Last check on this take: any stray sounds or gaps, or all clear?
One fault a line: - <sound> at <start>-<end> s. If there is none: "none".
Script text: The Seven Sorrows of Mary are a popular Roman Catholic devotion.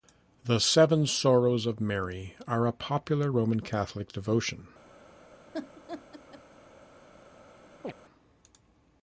- laugh at 5.5-6.4 s
- chirp at 7.8-7.9 s